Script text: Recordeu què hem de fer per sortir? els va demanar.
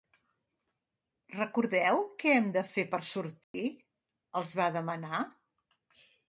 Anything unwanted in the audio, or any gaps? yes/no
yes